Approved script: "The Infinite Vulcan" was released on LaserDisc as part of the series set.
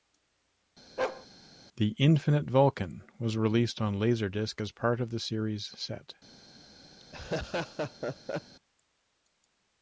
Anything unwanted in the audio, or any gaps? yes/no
yes